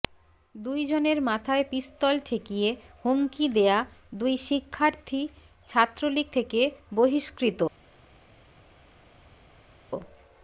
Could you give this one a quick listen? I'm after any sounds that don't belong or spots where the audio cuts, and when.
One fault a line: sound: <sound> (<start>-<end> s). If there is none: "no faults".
no faults